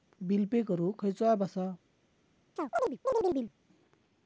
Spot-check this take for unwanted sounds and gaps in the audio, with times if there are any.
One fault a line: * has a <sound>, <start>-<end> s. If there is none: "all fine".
* has a chirp, 2.6-3.5 s